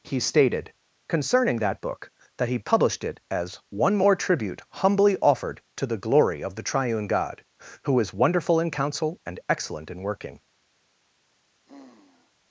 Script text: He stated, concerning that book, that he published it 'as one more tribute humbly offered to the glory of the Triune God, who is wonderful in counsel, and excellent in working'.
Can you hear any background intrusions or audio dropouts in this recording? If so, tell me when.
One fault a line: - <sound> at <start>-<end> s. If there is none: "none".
- sigh at 11.7-12.3 s